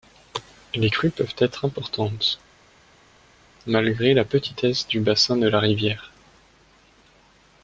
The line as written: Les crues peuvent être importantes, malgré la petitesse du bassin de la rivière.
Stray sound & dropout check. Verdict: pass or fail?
pass